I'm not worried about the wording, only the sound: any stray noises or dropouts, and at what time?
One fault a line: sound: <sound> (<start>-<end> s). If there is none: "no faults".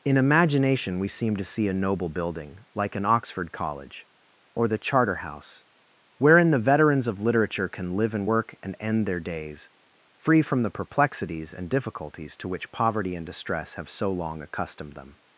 no faults